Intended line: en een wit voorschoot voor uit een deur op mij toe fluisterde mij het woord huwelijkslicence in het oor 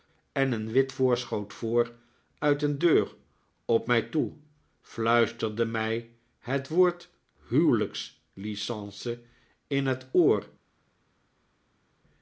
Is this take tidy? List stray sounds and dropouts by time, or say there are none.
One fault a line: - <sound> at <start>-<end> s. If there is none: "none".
none